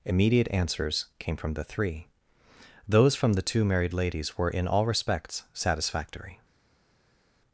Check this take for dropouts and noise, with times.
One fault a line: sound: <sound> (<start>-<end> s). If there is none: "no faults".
no faults